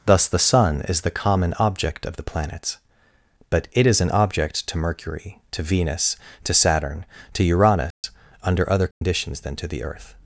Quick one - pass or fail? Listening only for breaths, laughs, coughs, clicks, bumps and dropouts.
fail